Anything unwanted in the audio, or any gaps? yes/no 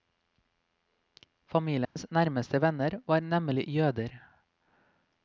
yes